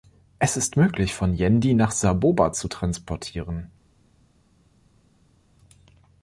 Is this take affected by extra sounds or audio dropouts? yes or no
no